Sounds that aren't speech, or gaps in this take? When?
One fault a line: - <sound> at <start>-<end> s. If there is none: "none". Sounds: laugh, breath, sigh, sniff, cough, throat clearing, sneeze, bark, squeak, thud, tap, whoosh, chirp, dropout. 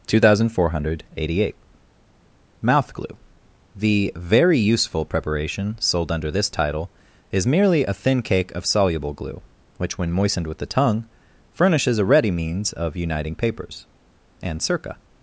none